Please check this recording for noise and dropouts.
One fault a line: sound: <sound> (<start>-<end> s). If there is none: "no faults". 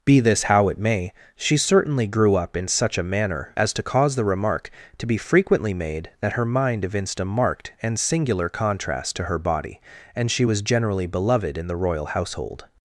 no faults